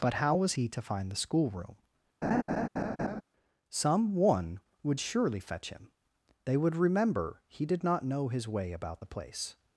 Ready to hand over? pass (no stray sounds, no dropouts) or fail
fail